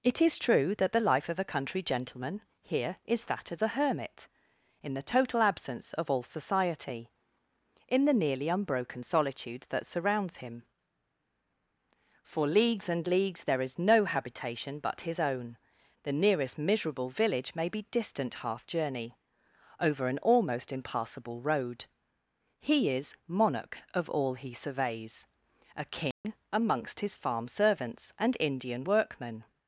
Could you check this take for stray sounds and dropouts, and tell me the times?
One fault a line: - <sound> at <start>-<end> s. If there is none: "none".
- dropout at 26.1-26.2 s